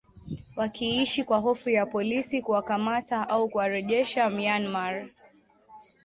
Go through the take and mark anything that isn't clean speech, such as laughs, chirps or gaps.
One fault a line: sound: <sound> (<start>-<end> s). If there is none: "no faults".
no faults